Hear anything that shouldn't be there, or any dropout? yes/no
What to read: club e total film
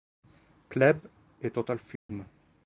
yes